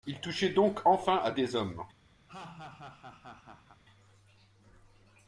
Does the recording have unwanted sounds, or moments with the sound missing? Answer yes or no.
yes